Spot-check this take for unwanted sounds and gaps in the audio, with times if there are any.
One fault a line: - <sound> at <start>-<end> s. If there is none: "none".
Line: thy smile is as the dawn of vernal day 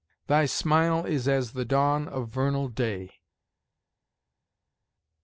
none